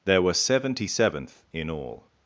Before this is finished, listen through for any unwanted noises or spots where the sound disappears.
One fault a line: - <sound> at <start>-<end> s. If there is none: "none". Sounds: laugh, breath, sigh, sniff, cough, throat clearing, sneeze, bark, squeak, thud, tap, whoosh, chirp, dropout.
none